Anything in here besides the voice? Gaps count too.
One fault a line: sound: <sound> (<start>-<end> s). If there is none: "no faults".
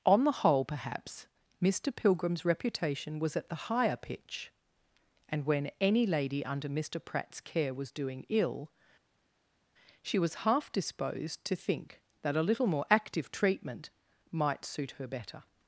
no faults